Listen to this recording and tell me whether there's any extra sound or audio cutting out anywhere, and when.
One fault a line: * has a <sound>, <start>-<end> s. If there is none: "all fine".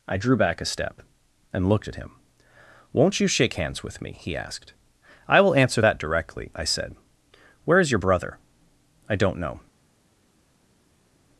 all fine